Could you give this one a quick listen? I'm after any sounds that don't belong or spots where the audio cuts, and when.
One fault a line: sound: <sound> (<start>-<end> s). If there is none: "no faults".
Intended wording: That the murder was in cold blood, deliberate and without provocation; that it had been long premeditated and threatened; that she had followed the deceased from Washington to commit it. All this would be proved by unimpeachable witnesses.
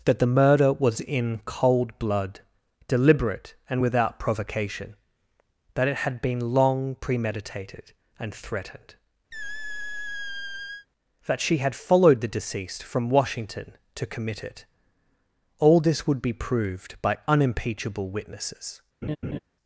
sound: squeak (9.3-10.9 s)
sound: laugh (19.0-19.4 s)